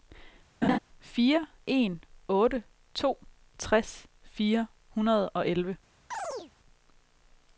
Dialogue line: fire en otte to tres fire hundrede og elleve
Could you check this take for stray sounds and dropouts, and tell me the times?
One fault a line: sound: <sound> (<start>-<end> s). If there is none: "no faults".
sound: laugh (0.6-0.8 s)
sound: chirp (6.1-6.5 s)